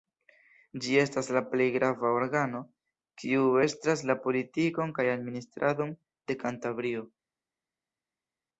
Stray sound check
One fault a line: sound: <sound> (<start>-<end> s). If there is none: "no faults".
no faults